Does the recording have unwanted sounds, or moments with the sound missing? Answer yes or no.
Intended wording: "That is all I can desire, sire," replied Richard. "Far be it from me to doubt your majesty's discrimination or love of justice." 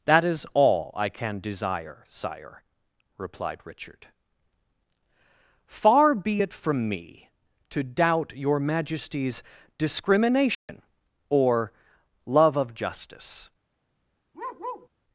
yes